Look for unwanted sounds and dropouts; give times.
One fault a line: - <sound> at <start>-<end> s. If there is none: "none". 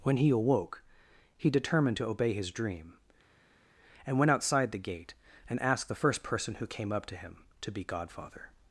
none